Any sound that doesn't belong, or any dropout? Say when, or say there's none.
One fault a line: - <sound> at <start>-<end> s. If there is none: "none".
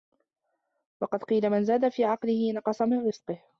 none